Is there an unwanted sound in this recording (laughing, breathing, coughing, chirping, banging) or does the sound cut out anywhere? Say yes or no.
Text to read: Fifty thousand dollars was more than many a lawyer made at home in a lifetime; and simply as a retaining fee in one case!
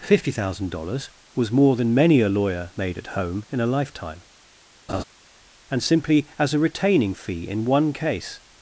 yes